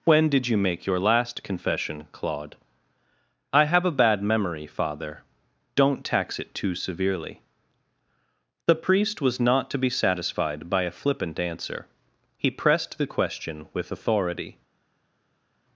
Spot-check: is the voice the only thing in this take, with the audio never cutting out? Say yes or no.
yes